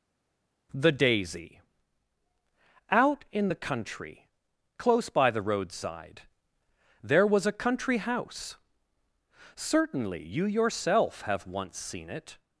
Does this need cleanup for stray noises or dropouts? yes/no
no